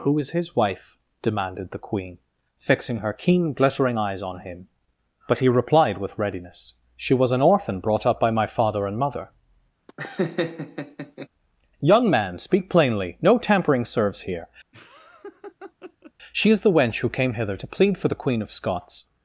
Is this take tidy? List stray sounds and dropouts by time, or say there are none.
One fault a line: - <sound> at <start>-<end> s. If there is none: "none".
- laugh at 9.9-11.3 s
- laugh at 14.7-16.1 s